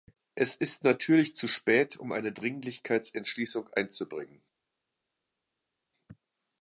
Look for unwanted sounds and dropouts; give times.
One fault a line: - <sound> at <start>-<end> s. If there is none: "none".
none